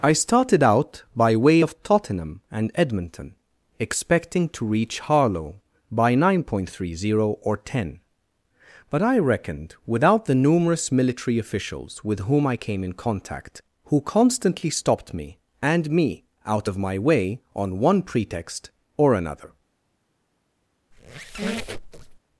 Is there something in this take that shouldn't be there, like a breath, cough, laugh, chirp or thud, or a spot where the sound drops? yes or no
yes